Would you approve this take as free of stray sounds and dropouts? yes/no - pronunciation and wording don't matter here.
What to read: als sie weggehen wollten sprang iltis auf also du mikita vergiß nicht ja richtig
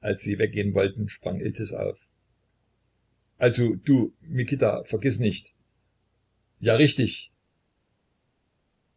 yes